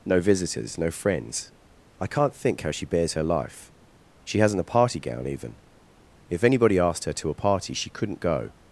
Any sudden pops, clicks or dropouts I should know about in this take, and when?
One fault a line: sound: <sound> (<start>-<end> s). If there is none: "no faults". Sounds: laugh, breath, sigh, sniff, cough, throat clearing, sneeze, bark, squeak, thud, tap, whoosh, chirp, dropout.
no faults